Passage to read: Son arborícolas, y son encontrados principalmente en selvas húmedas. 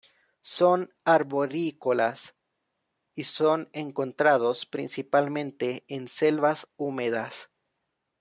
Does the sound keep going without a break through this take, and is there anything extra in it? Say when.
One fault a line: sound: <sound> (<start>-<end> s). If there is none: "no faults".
no faults